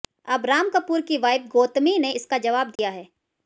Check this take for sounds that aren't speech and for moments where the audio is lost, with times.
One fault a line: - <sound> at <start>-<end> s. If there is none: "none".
- dropout at 2.8-2.8 s